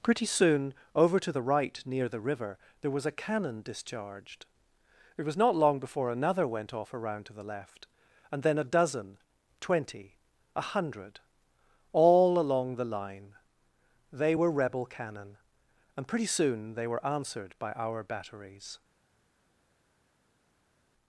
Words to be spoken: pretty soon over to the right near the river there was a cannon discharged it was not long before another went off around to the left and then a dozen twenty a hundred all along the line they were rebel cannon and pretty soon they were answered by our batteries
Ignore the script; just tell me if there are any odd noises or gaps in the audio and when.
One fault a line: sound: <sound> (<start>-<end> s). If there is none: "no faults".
no faults